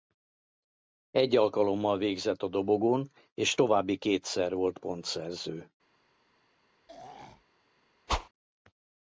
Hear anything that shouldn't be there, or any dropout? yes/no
yes